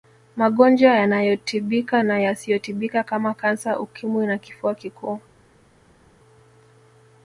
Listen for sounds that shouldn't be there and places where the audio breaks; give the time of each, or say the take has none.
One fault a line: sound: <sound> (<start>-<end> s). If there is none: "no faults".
no faults